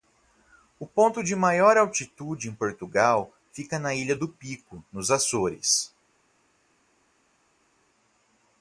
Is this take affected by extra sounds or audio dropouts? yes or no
no